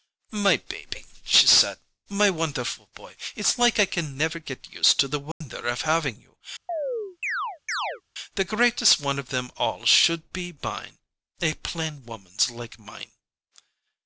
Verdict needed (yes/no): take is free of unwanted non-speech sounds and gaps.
no